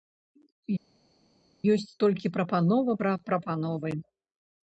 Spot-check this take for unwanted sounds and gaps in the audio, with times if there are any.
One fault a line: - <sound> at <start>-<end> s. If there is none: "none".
none